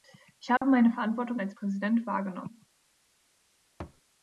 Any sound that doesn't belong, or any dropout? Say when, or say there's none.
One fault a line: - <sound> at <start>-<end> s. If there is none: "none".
- dropout at 0.6-0.6 s
- thud at 3.8-4.0 s